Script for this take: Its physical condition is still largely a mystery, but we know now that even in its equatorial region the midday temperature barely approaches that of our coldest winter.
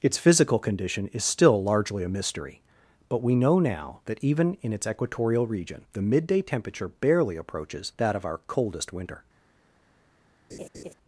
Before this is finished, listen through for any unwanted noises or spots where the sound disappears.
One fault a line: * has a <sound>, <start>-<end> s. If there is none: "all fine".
* has a laugh, 10.5-10.9 s